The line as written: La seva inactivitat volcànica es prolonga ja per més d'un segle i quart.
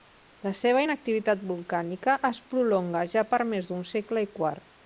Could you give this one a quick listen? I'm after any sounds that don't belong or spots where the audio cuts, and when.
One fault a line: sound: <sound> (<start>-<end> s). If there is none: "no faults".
no faults